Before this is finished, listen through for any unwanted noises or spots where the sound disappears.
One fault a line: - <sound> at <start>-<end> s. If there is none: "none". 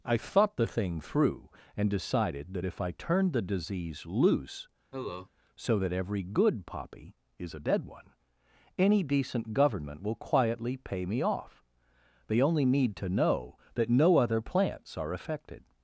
- cough at 4.9-5.3 s